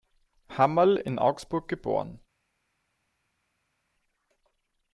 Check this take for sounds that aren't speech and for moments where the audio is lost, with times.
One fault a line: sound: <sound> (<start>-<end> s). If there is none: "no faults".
no faults